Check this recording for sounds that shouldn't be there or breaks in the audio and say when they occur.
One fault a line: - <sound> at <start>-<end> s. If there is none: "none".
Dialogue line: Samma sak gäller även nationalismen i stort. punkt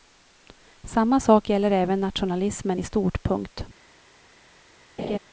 - laugh at 5.0-5.2 s